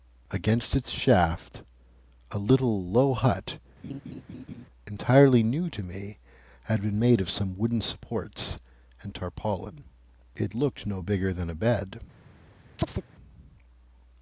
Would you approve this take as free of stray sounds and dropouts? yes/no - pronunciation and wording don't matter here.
no